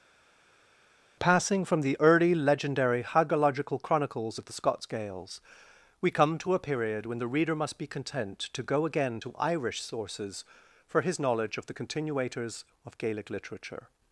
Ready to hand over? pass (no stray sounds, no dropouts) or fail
pass